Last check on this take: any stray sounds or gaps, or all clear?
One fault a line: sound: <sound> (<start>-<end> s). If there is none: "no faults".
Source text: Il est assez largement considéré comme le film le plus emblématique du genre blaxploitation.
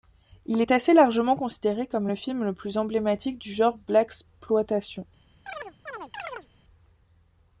sound: chirp (5.5-6.5 s)